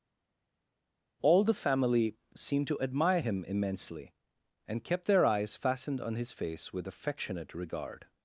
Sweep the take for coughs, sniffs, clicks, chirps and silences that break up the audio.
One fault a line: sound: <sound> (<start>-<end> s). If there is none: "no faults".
no faults